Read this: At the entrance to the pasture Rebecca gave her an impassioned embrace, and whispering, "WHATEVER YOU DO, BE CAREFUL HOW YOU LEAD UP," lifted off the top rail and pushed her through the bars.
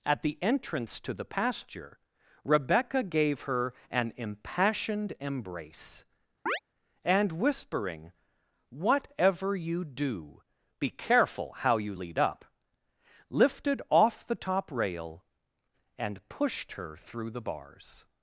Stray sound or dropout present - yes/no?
yes